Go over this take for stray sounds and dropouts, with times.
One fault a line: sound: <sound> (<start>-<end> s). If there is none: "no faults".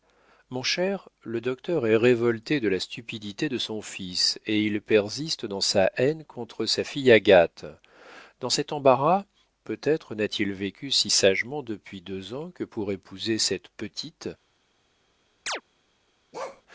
sound: chirp (15.5-15.6 s)
sound: bark (16.3-16.6 s)